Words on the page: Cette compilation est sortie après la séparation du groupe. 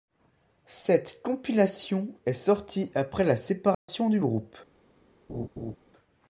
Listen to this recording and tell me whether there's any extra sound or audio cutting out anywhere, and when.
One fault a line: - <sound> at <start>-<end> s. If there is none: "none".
- dropout at 3.7-3.9 s
- laugh at 5.3-5.8 s